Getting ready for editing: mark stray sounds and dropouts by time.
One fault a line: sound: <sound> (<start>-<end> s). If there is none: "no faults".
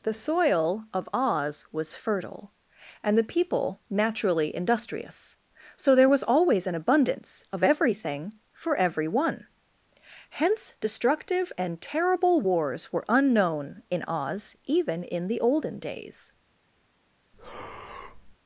sound: breath (17.3-18.4 s)